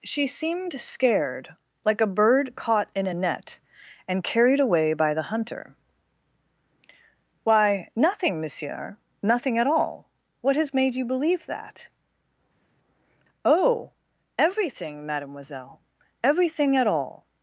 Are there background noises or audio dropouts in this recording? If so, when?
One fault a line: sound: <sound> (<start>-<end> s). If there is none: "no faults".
no faults